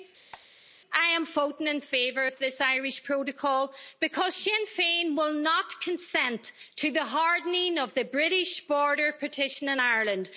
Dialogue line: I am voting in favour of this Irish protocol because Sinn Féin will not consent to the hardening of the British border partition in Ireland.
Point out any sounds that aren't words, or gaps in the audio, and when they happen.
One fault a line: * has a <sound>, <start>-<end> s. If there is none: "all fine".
* has a squeak, 0.3-0.5 s